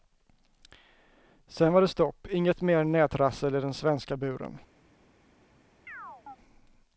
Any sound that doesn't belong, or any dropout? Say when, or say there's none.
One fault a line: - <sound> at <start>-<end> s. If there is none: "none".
- chirp at 5.9-6.4 s